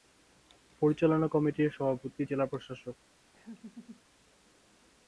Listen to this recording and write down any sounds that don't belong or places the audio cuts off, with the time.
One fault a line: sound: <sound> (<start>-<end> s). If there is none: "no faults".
sound: laugh (3.3-4.0 s)